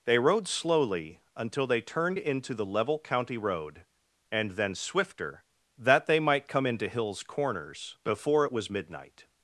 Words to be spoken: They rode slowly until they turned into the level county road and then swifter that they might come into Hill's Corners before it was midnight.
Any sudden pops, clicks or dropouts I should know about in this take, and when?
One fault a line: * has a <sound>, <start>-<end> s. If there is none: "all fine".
all fine